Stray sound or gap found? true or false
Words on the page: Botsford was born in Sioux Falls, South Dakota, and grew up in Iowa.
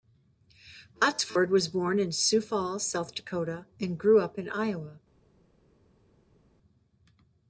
false